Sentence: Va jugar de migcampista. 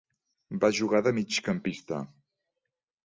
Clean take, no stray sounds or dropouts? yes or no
yes